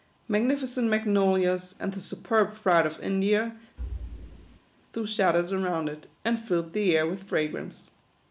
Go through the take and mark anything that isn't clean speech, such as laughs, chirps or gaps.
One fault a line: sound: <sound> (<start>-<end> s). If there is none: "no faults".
sound: thud (3.8-4.6 s)